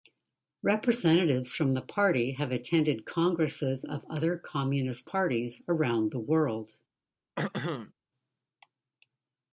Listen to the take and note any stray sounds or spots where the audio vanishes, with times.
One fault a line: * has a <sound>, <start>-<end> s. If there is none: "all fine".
* has a throat clearing, 7.4-7.9 s